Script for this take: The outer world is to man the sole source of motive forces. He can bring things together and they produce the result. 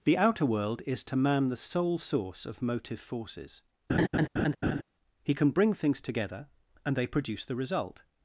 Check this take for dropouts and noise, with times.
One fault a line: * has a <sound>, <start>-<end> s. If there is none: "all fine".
* has a laugh, 3.9-4.8 s